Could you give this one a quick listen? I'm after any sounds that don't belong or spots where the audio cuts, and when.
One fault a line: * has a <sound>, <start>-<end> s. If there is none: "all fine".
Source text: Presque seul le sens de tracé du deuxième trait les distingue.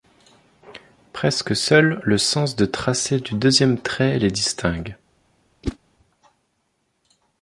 * has a whoosh, 5.6-5.8 s